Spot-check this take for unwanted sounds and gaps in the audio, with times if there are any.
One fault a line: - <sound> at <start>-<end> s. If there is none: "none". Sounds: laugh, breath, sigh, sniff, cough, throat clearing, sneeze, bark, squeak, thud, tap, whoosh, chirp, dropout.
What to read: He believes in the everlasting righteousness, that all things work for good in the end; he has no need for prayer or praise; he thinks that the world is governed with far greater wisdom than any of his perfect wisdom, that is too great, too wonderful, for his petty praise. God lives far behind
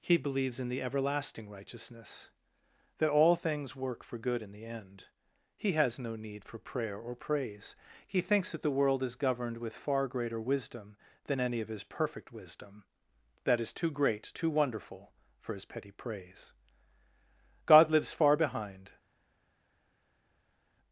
none